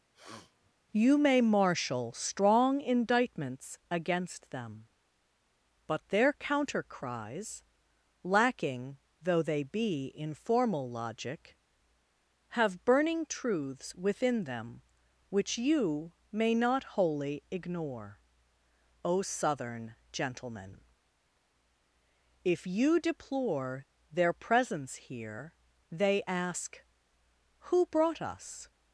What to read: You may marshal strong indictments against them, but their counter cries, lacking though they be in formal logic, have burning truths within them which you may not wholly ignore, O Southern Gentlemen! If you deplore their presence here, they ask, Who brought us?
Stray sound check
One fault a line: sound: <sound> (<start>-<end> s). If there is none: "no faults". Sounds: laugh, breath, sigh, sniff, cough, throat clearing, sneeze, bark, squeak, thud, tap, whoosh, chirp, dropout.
sound: sniff (0.1-0.7 s)